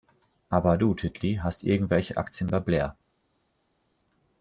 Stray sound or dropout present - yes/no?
no